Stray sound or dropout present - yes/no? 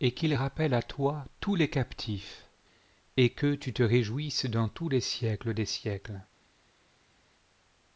no